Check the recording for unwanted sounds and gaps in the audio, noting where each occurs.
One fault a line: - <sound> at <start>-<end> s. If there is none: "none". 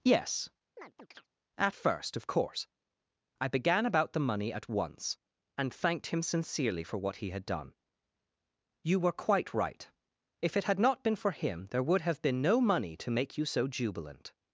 - chirp at 0.8-1.3 s